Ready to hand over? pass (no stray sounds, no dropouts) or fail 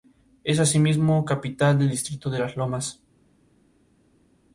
pass